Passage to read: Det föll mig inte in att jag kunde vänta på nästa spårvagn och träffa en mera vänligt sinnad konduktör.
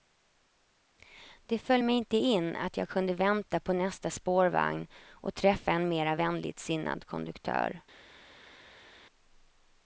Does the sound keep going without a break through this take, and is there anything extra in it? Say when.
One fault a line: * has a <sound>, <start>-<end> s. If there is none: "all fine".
all fine